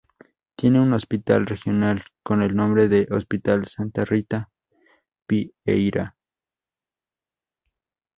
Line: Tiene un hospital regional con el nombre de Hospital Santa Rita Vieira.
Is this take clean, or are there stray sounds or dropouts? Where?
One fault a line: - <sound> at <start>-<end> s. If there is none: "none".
none